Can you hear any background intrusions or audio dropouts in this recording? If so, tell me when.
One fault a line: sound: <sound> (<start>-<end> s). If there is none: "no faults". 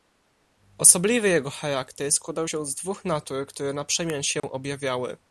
sound: dropout (4.4-4.4 s)